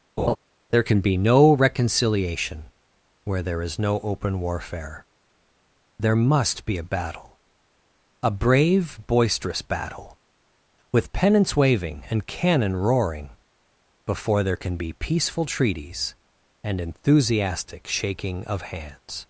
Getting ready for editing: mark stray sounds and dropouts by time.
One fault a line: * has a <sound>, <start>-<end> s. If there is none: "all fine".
* has a laugh, 0.2-0.4 s